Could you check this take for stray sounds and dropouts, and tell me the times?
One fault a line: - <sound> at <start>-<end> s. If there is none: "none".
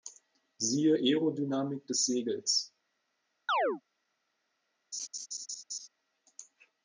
- chirp at 3.5-3.8 s
- laugh at 4.9-5.9 s